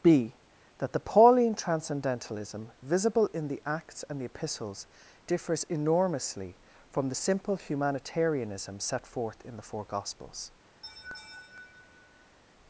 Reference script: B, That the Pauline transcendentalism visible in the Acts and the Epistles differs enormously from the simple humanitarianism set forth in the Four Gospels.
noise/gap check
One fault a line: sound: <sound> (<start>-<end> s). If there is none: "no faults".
sound: laugh (10.8-12.4 s)